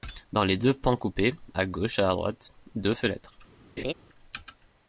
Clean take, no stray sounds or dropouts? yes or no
no